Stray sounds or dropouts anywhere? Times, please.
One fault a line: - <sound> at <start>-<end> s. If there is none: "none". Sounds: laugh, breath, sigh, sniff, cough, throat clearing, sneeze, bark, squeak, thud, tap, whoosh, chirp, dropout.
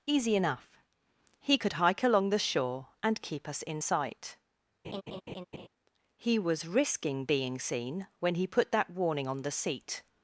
- laugh at 4.8-5.7 s